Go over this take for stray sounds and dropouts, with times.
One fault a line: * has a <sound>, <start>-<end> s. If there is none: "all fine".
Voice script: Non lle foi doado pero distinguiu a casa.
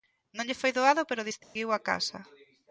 * has a dropout, 1.4-1.6 s